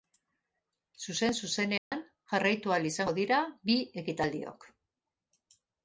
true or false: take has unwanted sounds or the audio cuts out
true